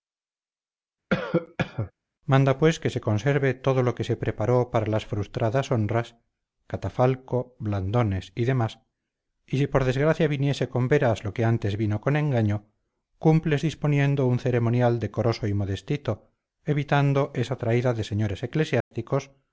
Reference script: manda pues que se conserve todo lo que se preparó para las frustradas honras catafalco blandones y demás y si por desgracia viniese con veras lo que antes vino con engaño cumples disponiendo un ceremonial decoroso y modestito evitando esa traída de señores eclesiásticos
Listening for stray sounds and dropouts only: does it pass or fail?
fail